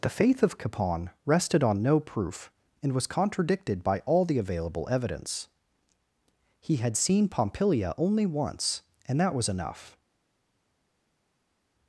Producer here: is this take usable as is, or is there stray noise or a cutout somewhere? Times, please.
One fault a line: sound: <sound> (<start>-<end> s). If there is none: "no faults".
no faults